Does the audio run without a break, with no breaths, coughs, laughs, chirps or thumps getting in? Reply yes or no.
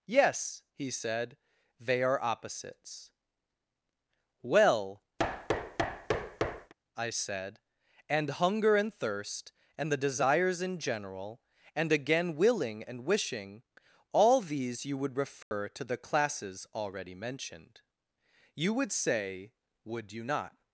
no